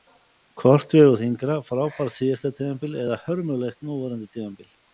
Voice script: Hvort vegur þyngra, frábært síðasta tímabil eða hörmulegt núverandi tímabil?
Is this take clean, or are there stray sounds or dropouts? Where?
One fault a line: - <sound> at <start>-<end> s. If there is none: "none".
none